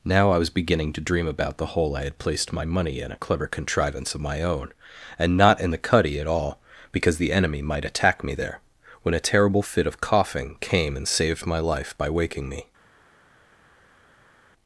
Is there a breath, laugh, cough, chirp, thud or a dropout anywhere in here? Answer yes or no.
no